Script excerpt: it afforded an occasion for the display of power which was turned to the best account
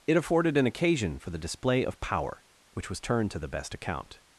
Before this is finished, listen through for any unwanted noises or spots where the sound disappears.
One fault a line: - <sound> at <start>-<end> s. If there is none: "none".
none